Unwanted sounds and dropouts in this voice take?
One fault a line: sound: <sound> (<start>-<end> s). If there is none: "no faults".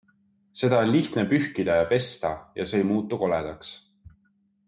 no faults